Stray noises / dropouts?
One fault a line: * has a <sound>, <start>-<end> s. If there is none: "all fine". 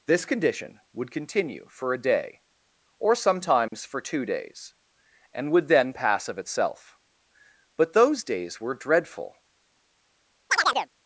* has a dropout, 3.7-3.7 s
* has a chirp, 10.5-10.9 s